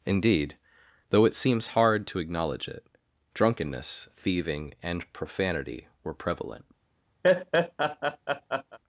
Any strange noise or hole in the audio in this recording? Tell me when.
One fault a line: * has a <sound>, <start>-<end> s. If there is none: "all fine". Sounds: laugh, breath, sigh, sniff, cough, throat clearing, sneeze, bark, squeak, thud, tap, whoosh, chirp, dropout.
* has a laugh, 7.2-8.8 s